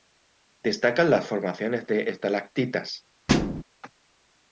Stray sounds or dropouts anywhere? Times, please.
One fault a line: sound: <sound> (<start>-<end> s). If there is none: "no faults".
sound: thud (3.3-3.6 s)